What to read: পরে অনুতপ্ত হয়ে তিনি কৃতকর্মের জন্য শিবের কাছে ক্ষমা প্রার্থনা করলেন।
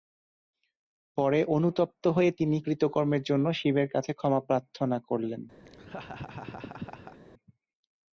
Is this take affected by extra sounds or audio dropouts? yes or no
yes